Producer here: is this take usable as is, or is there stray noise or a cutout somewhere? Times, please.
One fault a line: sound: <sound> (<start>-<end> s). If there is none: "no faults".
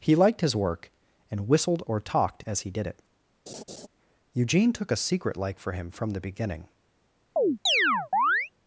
sound: laugh (3.5-3.9 s)
sound: chirp (7.4-8.5 s)